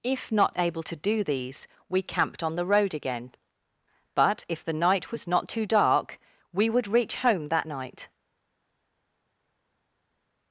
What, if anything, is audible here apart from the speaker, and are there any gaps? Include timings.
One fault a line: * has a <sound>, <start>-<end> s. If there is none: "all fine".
all fine